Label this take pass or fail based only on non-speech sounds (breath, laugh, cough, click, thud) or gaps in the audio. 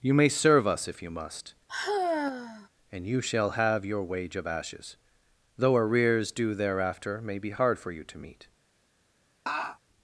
fail